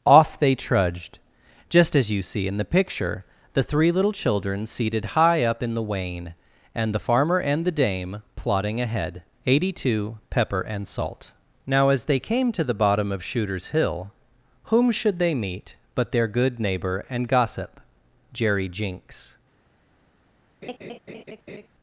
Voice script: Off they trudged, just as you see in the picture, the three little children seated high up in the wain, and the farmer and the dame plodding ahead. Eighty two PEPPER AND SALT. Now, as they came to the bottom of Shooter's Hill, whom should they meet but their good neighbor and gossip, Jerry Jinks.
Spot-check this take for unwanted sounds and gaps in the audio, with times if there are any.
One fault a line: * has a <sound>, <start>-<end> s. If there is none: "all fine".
* has a laugh, 20.6-21.7 s